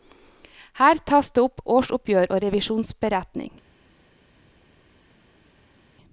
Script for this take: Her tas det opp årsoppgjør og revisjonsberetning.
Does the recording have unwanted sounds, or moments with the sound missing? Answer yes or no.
no